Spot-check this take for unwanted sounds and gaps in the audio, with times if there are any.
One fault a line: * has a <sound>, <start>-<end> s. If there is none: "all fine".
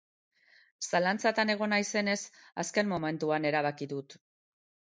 all fine